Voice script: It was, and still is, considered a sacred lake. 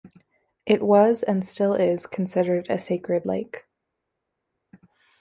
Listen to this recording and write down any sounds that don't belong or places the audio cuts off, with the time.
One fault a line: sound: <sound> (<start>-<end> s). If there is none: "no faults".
no faults